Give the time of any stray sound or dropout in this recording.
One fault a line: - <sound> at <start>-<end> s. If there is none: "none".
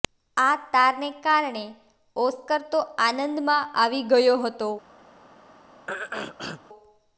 - throat clearing at 5.9-6.6 s